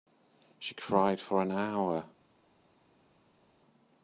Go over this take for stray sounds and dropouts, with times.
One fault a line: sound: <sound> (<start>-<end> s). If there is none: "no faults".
no faults